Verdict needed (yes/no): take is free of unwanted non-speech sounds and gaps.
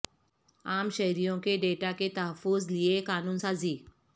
yes